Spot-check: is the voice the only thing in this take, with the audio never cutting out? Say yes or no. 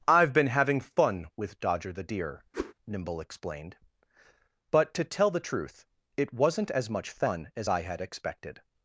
no